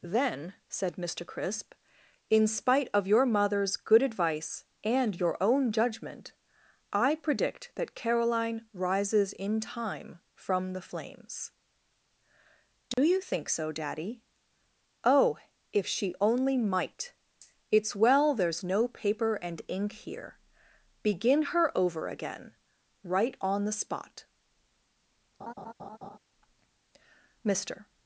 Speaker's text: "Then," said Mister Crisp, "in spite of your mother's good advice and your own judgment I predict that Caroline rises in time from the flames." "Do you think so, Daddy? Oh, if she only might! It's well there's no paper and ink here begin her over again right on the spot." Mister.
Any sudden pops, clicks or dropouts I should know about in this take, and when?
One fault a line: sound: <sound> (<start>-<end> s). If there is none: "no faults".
sound: dropout (12.9-13.0 s)
sound: laugh (25.4-26.2 s)